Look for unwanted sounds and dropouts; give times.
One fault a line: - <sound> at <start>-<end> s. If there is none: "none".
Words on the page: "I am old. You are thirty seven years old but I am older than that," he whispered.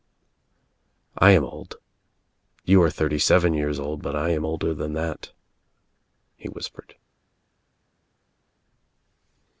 none